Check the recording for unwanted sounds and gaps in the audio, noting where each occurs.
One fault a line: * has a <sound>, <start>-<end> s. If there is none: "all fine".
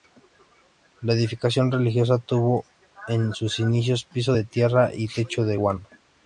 all fine